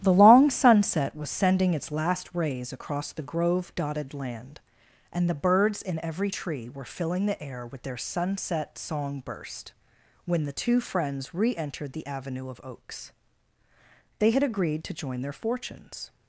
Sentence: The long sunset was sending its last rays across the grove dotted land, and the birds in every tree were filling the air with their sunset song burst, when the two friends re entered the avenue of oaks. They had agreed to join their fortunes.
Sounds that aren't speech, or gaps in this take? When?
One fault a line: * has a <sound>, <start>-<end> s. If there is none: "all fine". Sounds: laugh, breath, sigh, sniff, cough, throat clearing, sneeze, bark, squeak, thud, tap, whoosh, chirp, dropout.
all fine